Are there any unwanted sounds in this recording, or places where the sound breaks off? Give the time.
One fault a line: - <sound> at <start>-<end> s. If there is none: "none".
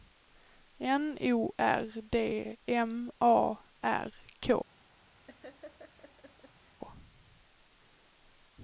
- laugh at 5.2-6.8 s